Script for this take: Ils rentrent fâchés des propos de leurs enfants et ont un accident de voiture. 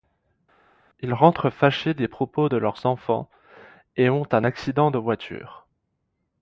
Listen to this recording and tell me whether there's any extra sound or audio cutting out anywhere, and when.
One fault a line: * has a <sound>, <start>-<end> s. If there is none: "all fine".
all fine